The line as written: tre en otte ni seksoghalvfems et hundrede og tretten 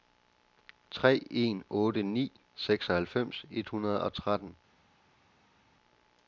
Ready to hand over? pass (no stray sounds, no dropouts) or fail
pass